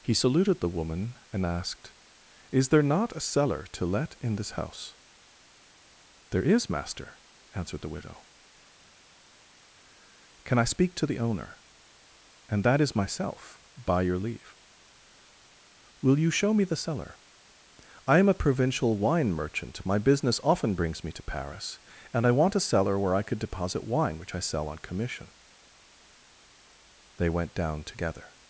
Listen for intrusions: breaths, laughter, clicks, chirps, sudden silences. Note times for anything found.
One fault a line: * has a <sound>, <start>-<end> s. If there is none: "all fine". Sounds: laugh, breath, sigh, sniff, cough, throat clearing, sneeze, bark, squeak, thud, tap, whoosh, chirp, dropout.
all fine